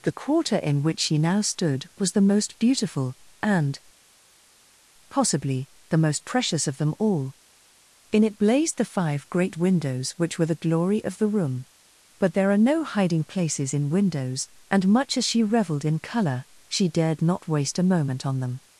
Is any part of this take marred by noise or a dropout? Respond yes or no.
no